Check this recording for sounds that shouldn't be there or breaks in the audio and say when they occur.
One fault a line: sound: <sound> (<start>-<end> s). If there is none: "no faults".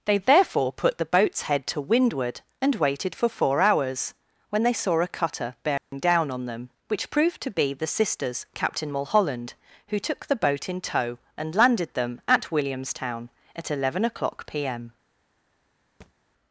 sound: dropout (5.8-5.9 s)
sound: thud (16.0-16.1 s)